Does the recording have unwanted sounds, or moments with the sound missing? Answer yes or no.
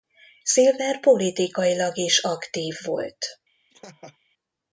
yes